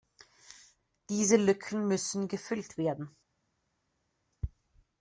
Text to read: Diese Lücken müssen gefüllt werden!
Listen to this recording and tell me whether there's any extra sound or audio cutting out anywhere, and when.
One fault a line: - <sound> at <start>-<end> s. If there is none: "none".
none